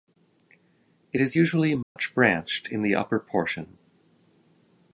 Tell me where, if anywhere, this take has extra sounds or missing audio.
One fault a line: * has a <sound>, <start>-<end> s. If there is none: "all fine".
* has a dropout, 1.8-2.0 s